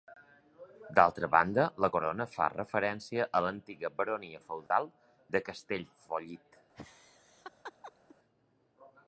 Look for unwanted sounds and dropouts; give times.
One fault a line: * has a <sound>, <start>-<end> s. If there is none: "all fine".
* has a dropout, 4.7-4.7 s
* has a laugh, 6.7-8.2 s